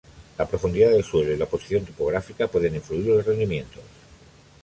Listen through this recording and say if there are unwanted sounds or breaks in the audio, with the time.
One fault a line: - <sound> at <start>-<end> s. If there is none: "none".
none